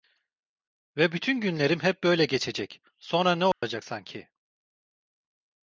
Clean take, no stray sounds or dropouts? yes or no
no